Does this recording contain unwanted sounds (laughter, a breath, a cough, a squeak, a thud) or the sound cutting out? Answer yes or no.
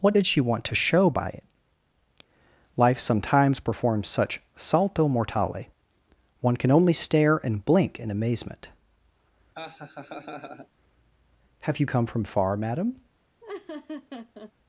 yes